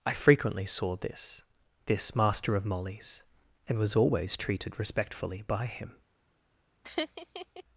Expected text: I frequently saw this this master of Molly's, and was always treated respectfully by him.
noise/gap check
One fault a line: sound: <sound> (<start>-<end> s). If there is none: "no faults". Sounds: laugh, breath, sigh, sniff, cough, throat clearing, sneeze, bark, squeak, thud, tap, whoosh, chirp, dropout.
sound: laugh (6.8-7.6 s)